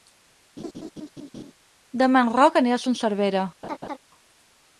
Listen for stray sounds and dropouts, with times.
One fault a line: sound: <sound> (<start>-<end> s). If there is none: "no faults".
sound: laugh (0.6-1.5 s)
sound: laugh (3.6-4.0 s)